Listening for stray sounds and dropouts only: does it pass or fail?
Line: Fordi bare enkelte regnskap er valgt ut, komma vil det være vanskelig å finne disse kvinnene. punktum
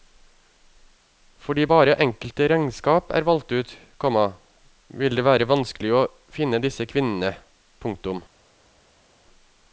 pass